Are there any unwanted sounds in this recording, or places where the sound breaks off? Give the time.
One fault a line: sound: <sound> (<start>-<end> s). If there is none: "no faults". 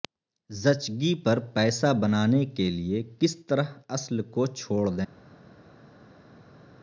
no faults